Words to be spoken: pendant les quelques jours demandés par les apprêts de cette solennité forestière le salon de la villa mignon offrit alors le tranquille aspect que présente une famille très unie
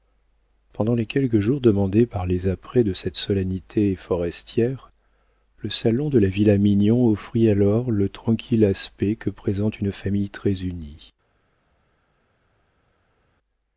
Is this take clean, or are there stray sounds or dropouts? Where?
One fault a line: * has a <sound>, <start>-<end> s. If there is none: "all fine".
all fine